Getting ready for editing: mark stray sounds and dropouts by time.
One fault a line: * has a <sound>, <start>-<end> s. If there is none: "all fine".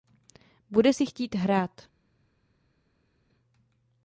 all fine